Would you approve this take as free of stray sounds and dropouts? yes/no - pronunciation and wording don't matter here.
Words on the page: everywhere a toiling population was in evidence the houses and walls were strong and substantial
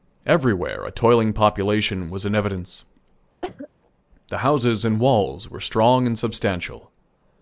no